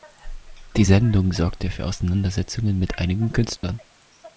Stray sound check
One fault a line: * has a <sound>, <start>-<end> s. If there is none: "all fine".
* has a dropout, 3.6-3.6 s